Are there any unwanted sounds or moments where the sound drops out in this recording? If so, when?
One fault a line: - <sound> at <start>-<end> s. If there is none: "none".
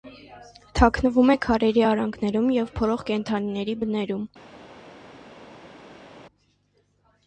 none